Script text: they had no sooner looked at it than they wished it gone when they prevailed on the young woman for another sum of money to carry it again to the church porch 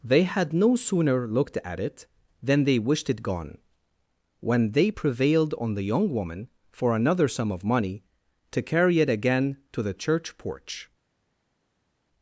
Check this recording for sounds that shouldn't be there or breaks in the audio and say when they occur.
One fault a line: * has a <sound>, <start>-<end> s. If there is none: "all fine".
all fine